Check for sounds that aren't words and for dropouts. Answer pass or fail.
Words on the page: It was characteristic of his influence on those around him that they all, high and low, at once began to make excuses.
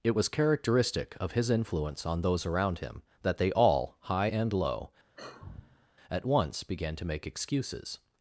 fail